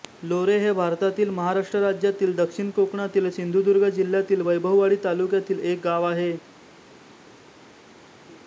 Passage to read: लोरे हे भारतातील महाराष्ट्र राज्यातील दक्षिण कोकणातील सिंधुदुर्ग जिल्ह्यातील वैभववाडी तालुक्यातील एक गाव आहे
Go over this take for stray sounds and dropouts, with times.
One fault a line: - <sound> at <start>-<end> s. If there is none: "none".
none